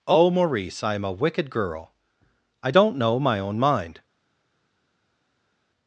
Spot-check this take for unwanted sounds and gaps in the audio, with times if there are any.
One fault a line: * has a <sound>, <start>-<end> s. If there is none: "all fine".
all fine